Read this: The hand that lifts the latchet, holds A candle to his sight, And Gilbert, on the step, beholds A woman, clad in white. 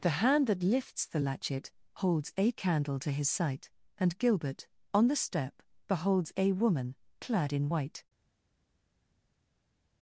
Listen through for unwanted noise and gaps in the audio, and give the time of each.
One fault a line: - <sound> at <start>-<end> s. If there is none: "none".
none